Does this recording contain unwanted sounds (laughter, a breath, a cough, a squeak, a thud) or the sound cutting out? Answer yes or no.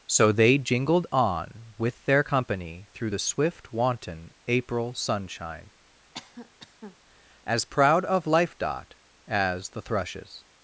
yes